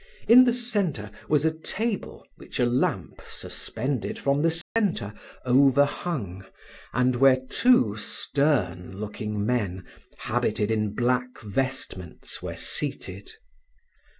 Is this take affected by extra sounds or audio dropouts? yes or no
yes